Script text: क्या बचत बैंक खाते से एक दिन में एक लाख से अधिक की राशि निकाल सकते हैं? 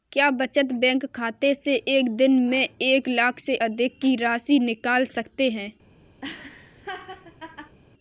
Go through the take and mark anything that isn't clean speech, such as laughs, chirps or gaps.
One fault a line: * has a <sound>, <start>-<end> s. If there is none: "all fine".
* has a laugh, 6.2-7.8 s